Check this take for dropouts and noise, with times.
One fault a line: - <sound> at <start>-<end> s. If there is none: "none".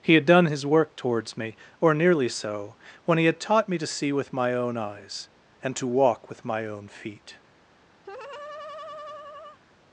- laugh at 8.0-9.6 s